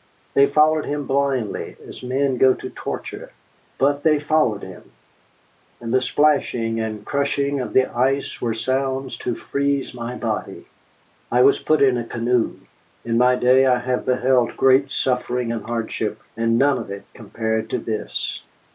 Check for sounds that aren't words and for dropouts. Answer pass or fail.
pass